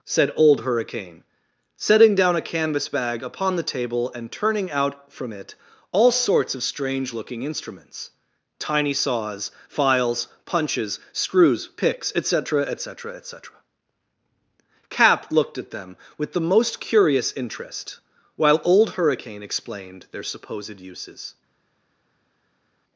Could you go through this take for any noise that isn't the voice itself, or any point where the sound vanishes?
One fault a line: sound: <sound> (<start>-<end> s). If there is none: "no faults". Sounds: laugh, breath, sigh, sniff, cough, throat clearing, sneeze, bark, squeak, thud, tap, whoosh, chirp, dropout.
no faults